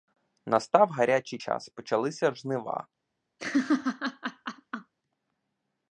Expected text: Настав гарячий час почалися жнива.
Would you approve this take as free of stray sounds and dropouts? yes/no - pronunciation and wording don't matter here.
no